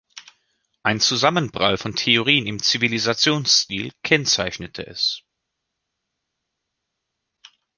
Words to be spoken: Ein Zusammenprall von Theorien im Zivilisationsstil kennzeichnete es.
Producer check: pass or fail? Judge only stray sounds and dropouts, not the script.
pass